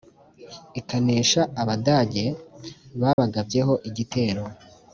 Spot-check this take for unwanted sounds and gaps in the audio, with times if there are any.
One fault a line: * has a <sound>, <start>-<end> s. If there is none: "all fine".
* has a dropout, 3.1-3.2 s